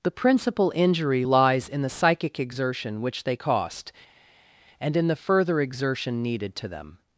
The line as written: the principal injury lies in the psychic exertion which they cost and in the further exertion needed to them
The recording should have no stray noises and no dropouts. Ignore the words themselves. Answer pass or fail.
pass